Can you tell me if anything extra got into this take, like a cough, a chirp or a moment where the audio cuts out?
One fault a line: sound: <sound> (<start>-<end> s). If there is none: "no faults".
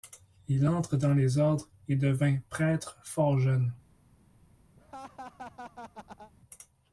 sound: laugh (4.8-6.3 s)